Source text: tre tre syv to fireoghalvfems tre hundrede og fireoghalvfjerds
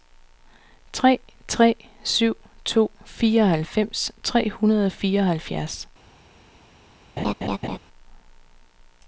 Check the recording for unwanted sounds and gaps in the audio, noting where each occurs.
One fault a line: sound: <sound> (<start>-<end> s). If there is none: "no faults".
sound: laugh (7.2-7.8 s)